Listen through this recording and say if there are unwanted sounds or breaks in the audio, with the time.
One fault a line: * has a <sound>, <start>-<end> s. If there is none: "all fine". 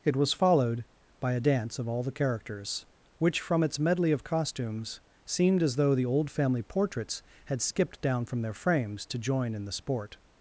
all fine